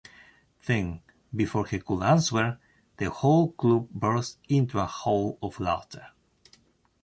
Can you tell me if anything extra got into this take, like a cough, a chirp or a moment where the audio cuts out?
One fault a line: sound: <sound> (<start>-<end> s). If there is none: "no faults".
no faults